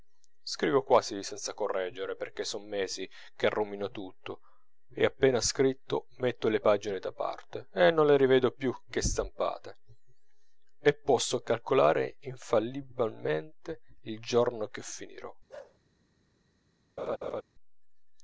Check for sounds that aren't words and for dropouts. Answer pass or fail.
fail